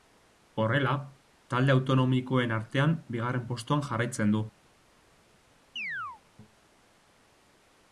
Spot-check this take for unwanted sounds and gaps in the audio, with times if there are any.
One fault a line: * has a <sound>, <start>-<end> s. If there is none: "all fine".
* has a chirp, 5.8-6.2 s